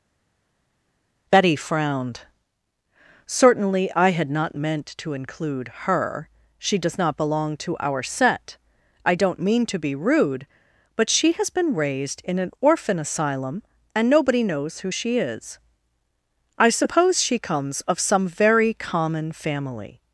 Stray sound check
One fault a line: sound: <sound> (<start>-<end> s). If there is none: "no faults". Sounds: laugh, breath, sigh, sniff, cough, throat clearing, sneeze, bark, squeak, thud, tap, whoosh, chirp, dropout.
no faults